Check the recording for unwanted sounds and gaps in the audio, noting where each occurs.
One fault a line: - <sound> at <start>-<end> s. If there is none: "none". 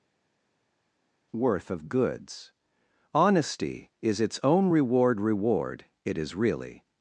none